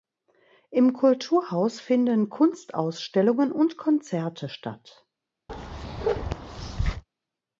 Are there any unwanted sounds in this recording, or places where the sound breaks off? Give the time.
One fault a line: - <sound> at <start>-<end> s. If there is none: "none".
- bark at 5.5-7.0 s